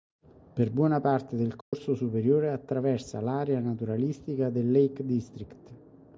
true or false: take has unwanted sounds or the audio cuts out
true